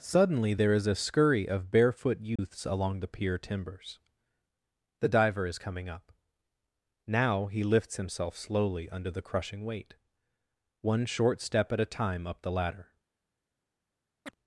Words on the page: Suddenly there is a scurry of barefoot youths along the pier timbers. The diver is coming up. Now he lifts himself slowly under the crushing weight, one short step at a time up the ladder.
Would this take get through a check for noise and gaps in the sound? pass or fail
fail